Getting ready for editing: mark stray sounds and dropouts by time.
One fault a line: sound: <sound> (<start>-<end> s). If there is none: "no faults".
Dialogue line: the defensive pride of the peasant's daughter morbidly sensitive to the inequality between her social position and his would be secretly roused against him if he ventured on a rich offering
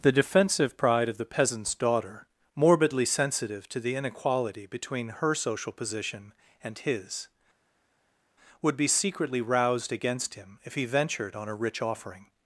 no faults